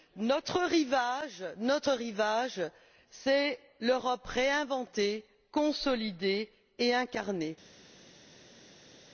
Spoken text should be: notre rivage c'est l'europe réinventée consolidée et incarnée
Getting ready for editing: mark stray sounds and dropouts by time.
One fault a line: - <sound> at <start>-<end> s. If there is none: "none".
none